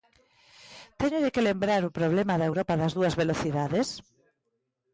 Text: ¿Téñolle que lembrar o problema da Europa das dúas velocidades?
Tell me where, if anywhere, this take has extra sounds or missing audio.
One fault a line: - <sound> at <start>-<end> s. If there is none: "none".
none